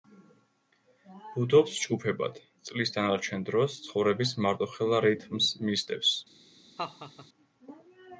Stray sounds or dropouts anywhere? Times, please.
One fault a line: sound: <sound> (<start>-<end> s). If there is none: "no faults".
sound: laugh (6.8-7.3 s)